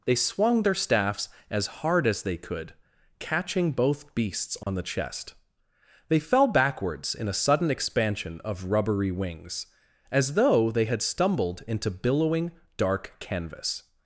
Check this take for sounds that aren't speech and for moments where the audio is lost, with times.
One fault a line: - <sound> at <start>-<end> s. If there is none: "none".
- dropout at 4.6-4.7 s